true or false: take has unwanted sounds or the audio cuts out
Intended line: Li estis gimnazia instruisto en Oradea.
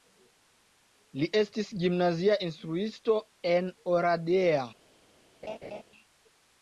true